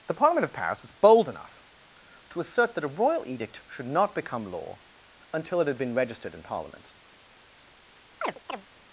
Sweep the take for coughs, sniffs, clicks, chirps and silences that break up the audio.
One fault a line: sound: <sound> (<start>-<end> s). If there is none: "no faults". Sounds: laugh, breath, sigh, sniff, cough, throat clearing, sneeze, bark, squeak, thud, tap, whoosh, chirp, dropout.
sound: chirp (8.2-8.7 s)